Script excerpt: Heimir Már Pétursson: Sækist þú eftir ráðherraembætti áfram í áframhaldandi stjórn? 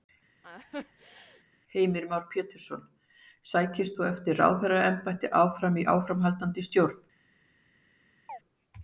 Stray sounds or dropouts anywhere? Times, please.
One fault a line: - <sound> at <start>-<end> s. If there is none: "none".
- laugh at 0.4-1.4 s
- chirp at 8.3-8.4 s